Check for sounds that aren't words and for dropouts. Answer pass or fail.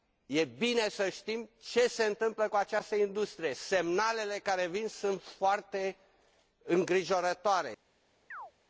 fail